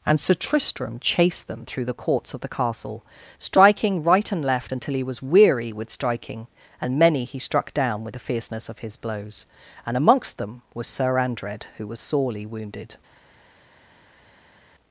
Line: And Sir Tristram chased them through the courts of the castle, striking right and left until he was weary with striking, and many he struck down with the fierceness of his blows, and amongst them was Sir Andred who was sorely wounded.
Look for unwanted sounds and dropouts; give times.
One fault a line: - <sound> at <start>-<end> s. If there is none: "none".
none